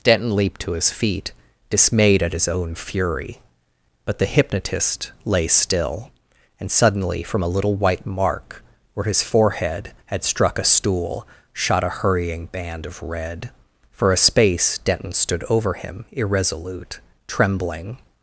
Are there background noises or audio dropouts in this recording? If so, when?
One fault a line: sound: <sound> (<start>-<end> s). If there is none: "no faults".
no faults